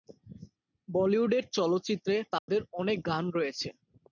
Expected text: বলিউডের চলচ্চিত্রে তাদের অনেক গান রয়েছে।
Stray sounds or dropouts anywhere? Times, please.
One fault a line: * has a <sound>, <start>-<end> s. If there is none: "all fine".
* has a dropout, 2.4-2.5 s